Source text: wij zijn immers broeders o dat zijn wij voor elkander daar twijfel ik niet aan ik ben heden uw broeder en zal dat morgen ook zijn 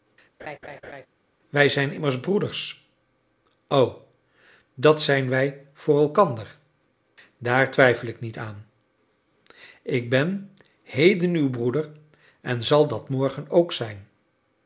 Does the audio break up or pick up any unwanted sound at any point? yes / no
yes